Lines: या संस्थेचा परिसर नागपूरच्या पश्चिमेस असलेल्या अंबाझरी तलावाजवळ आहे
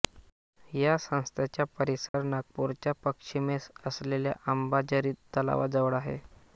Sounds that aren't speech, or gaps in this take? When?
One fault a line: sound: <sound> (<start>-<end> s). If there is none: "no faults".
sound: dropout (2.1-2.1 s)